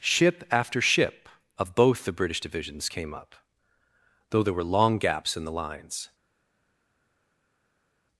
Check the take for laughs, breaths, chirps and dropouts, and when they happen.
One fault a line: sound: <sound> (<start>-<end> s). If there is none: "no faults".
no faults